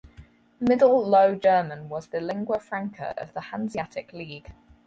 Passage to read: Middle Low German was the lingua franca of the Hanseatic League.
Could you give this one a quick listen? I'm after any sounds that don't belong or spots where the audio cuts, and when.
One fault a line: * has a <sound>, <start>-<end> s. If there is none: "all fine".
all fine